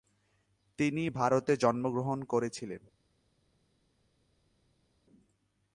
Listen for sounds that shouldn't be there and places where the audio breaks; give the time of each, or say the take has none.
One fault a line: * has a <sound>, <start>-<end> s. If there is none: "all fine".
all fine